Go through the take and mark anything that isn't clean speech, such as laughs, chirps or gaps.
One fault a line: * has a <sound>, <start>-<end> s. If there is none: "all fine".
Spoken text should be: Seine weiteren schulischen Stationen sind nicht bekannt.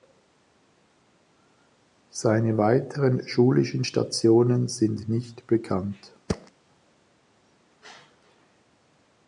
* has a thud, 6.3-6.5 s